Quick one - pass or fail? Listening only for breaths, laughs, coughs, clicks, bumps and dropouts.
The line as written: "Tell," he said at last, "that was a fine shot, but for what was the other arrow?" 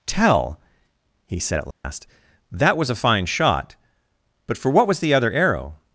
fail